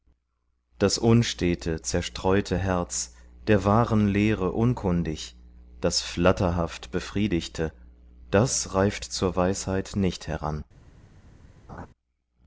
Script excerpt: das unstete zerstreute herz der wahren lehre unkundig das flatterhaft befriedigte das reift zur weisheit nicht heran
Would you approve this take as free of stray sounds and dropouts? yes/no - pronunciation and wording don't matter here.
no